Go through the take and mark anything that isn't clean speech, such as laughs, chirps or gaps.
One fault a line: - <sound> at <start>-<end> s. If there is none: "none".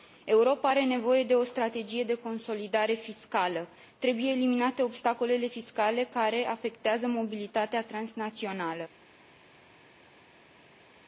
none